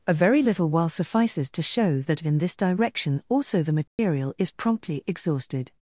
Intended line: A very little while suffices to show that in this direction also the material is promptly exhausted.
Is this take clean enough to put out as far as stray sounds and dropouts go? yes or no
no